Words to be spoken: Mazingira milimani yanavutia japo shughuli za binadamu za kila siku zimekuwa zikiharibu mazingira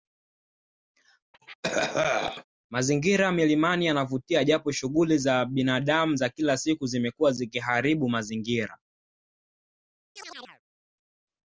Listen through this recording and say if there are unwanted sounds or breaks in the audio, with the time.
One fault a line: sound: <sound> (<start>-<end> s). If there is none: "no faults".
sound: cough (1.3-2.4 s)
sound: chirp (10.2-10.6 s)